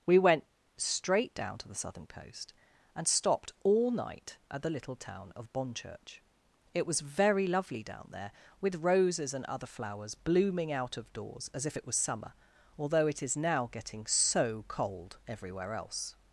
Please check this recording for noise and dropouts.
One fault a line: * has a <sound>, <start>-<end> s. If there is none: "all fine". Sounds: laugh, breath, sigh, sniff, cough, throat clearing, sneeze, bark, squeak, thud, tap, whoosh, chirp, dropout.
all fine